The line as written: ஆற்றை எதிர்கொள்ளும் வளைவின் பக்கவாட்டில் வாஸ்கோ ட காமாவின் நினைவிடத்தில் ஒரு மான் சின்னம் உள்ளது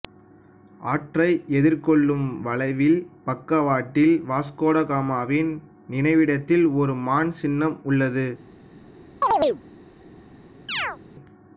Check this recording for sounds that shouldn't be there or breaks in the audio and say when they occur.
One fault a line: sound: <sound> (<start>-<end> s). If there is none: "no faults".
sound: chirp (9.2-9.6 s)
sound: chirp (10.7-11.0 s)